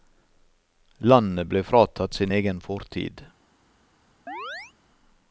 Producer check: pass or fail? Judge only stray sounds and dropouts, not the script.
fail